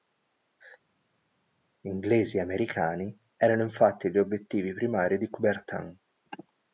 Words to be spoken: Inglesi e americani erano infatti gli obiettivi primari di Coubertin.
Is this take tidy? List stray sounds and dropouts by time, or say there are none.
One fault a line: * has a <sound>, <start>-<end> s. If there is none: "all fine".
all fine